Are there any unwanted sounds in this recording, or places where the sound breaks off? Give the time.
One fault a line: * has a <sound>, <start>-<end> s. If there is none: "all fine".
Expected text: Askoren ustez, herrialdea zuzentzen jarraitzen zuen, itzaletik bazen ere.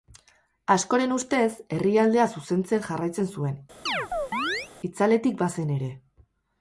* has a chirp, 3.9-4.7 s